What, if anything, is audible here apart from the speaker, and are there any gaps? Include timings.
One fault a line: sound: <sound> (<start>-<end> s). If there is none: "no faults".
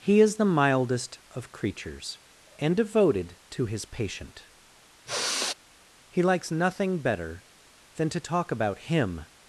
sound: sigh (5.1-5.5 s)